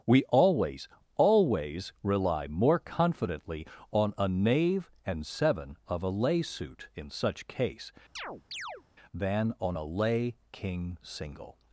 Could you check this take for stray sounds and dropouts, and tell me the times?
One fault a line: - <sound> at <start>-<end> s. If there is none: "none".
- chirp at 8.2-8.8 s